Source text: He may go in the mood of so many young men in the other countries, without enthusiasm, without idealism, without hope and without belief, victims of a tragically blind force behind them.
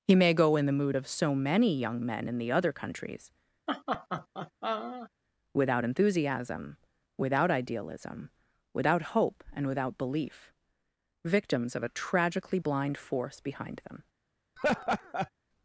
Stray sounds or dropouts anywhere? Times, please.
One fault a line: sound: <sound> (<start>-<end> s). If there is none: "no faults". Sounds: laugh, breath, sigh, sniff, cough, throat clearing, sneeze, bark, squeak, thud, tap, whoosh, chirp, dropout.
sound: laugh (3.7-5.1 s)
sound: laugh (14.6-15.3 s)